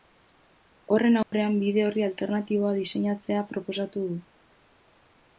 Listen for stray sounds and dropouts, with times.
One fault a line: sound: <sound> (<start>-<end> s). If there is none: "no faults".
sound: dropout (1.2-1.3 s)